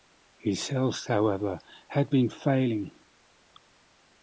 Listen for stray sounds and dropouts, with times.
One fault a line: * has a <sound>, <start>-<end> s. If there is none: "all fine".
all fine